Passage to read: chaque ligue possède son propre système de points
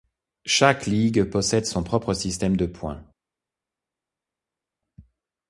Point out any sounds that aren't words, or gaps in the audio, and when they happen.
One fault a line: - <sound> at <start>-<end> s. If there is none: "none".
none